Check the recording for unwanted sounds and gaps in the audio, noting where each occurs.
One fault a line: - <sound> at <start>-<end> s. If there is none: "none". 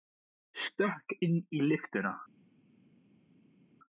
none